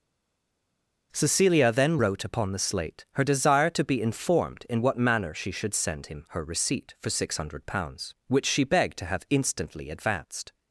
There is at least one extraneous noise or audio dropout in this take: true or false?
false